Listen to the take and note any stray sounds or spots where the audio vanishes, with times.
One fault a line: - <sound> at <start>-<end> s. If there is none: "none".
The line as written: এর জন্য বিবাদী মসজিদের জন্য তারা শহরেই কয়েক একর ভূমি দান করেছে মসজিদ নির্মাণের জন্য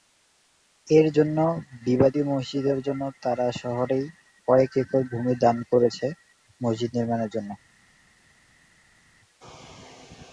none